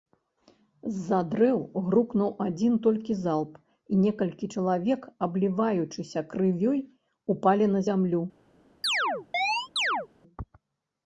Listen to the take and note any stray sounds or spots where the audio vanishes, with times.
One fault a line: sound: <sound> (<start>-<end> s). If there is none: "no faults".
sound: chirp (8.8-10.1 s)